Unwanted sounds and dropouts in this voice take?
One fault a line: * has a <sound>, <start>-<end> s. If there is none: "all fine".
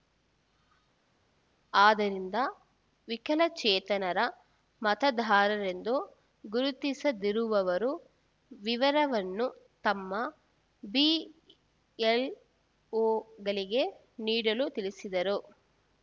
all fine